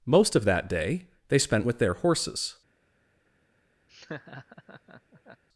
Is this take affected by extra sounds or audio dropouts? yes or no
yes